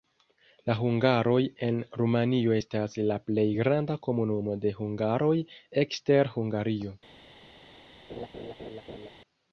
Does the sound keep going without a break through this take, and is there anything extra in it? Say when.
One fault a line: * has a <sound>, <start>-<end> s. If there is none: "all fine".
* has a laugh, 8.1-9.1 s